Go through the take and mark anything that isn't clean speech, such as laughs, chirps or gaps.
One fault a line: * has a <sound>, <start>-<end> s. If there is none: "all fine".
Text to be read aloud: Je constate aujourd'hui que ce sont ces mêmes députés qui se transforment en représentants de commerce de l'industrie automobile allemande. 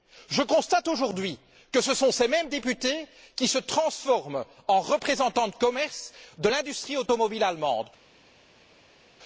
all fine